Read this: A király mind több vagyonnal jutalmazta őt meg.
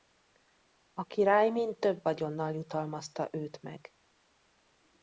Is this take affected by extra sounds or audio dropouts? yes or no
no